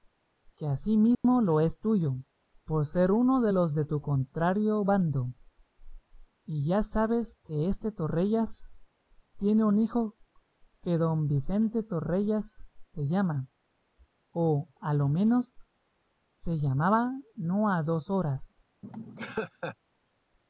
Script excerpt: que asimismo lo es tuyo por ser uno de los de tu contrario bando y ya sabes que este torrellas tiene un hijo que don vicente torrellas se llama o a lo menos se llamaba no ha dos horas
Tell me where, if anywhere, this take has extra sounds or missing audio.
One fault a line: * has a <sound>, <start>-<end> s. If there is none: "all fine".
* has a dropout, 1.1-1.2 s
* has a laugh, 18.8-19.8 s